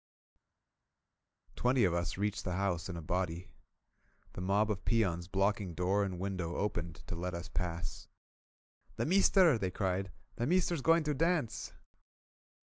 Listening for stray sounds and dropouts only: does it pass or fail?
pass